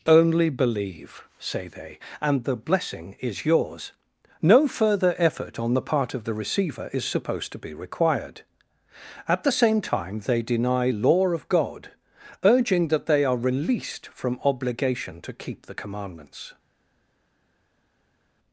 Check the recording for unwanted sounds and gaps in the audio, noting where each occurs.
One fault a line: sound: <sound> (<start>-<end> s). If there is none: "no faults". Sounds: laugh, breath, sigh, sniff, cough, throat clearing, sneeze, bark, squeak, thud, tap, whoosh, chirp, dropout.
no faults